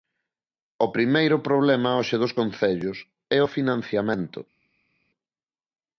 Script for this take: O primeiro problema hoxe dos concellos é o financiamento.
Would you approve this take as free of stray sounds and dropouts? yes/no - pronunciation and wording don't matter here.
yes